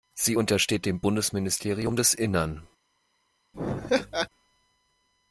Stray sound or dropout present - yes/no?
yes